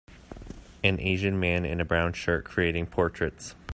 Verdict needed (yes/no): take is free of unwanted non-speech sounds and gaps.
yes